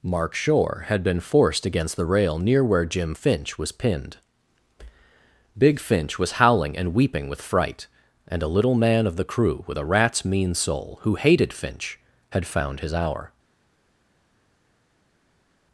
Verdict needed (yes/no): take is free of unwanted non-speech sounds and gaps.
yes